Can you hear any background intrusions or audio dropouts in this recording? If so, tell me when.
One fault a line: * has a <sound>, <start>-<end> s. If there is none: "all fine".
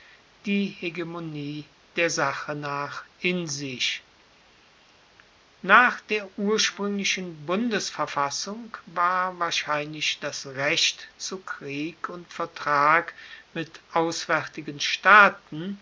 all fine